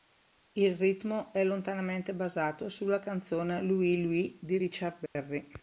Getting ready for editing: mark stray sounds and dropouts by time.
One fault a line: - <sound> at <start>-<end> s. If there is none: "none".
- dropout at 5.1-5.2 s